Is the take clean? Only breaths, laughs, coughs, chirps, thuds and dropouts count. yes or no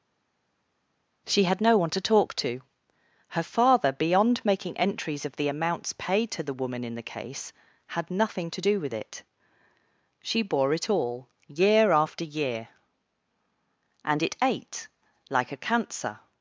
yes